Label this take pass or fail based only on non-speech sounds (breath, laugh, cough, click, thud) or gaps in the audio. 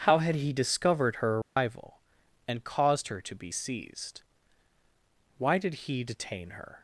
fail